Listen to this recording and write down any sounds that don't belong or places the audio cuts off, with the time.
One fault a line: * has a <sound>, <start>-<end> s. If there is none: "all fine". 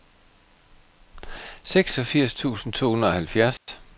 * has a dropout, 3.6-3.7 s